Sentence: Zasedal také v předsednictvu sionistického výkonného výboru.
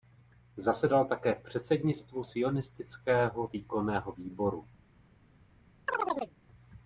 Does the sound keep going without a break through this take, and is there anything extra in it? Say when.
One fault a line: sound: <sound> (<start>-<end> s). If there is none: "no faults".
sound: chirp (5.9-6.3 s)